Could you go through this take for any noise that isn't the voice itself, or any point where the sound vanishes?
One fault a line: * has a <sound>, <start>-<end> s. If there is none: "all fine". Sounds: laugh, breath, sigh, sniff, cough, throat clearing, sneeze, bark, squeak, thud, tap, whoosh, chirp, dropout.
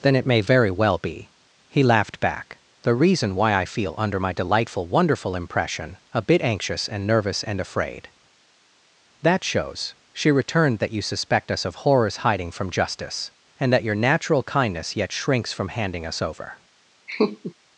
* has a laugh, 17.1-17.5 s